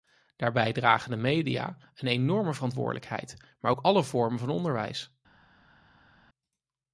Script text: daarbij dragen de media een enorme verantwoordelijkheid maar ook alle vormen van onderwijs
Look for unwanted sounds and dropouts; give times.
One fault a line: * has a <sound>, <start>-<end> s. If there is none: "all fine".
all fine